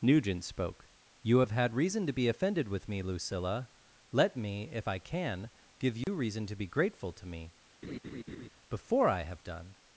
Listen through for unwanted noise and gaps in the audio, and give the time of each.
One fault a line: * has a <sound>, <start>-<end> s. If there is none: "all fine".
* has a dropout, 6.0-6.1 s
* has a laugh, 7.8-8.5 s